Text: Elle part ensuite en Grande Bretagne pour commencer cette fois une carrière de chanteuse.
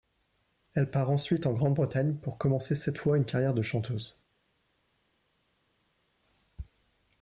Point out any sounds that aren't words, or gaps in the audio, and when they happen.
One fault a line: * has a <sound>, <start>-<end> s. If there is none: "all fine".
all fine